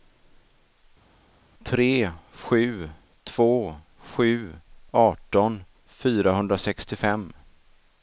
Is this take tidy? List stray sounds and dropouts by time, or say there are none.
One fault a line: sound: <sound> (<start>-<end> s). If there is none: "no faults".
no faults